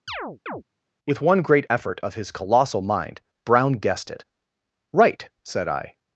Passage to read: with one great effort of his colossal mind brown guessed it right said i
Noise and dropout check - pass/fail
fail